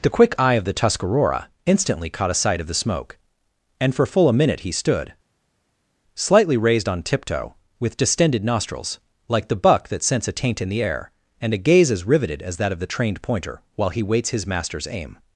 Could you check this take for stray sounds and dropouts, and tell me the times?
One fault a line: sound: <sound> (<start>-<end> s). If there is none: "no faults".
no faults